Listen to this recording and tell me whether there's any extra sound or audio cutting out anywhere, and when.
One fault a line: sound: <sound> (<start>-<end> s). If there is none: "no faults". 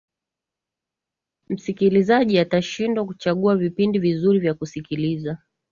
no faults